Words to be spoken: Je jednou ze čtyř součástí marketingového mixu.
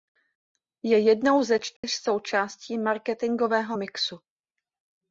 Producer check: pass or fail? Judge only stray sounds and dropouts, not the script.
fail